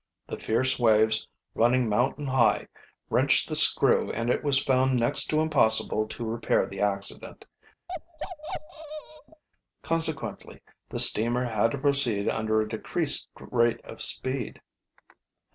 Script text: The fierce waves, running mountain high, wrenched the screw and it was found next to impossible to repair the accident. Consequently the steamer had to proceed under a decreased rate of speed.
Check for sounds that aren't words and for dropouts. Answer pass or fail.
fail